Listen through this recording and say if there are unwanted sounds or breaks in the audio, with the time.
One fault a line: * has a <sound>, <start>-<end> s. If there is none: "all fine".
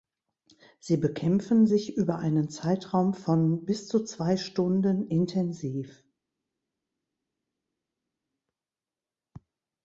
all fine